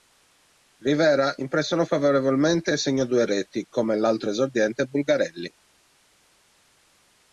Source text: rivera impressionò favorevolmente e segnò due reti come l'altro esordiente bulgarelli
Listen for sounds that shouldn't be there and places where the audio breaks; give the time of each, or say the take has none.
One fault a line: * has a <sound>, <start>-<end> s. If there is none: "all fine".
all fine